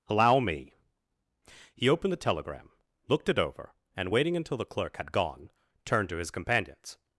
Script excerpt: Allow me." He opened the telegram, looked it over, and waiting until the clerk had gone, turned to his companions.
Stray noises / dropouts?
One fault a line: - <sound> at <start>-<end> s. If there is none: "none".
none